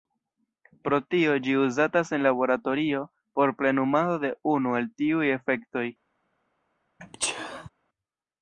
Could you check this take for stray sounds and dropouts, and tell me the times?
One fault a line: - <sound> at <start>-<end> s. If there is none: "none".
- sneeze at 7.0-7.7 s